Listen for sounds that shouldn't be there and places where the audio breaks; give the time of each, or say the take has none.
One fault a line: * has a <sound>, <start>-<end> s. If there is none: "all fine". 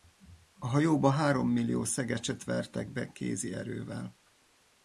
all fine